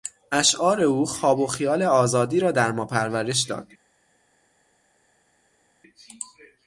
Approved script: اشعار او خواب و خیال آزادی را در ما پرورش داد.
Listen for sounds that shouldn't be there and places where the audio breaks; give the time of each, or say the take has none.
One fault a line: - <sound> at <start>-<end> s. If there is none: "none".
none